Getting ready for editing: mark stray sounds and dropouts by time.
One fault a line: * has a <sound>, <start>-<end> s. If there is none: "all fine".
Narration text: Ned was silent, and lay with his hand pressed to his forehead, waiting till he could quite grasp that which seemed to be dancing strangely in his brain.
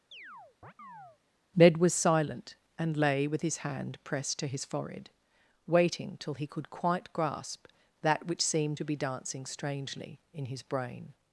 * has a chirp, 0.1-1.2 s